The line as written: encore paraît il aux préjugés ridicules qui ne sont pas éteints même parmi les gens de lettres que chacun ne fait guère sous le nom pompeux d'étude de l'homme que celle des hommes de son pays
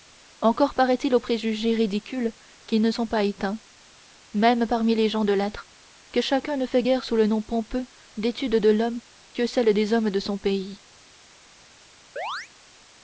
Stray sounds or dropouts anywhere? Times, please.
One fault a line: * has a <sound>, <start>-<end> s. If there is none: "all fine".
* has a chirp, 12.2-12.5 s